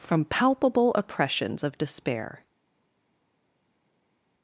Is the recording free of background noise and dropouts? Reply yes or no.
yes